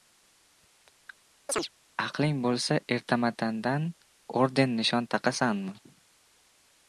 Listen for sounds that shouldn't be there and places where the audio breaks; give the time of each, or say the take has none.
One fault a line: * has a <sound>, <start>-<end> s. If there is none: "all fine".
* has a chirp, 1.5-1.7 s